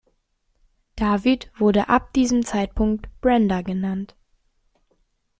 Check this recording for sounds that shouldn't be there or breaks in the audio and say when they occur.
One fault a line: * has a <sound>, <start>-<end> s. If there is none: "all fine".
all fine